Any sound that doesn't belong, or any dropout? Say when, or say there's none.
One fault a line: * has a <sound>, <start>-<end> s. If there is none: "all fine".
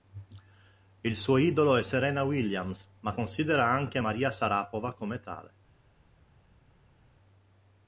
all fine